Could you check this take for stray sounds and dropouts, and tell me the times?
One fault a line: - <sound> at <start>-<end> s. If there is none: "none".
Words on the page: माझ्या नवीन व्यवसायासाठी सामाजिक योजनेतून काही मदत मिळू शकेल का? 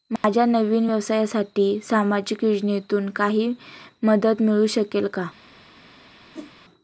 - dropout at 0.2-0.2 s
- whoosh at 6.3-6.5 s